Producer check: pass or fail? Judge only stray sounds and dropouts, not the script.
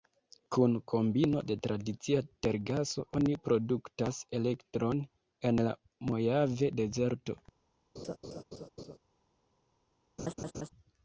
fail